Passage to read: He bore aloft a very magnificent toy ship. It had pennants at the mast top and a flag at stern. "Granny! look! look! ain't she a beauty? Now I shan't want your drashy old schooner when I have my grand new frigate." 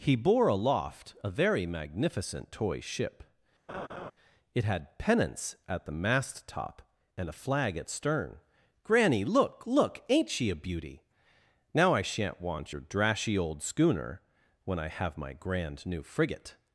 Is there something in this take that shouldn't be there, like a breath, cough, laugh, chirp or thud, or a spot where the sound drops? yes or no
yes